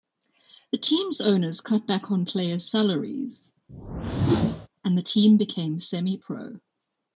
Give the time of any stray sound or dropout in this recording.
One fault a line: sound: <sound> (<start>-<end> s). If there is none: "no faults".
sound: whoosh (3.7-4.7 s)